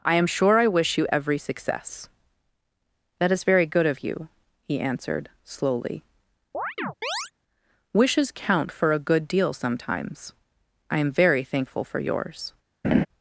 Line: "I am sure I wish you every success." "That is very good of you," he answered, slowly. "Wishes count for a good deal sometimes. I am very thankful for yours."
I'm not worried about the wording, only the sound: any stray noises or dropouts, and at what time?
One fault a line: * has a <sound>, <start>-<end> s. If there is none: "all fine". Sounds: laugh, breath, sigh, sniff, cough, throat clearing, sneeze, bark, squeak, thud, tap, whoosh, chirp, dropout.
* has a chirp, 6.5-7.3 s
* has a laugh, 12.8-13.1 s